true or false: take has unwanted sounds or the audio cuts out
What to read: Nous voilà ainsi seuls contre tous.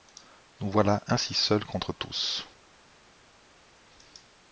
false